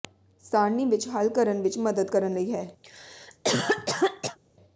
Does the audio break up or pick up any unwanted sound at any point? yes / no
yes